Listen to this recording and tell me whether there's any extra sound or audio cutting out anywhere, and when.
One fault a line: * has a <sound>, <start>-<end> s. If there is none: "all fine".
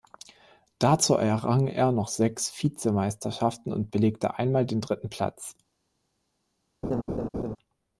* has a laugh, 6.8-7.6 s